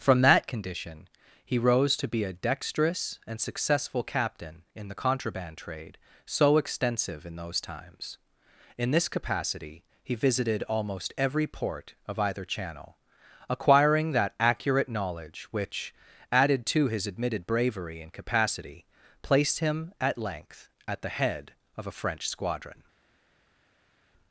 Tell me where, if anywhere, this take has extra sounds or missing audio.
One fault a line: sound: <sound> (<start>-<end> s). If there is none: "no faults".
no faults